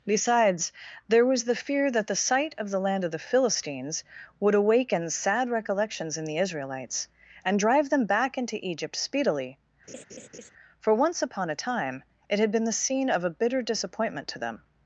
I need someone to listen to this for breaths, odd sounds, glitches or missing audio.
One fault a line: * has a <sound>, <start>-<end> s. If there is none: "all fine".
* has a laugh, 9.9-10.5 s